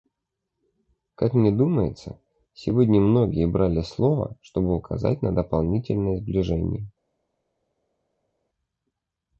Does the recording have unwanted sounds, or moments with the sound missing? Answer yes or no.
no